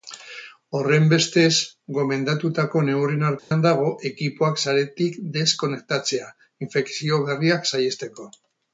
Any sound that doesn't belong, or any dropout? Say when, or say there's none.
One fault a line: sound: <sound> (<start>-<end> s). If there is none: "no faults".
sound: dropout (3.4-3.5 s)